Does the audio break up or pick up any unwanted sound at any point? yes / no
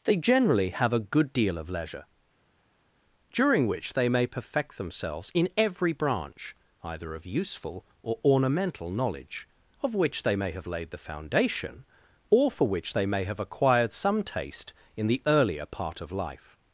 no